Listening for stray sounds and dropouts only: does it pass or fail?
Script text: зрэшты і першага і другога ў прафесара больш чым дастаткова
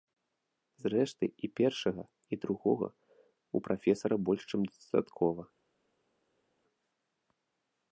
pass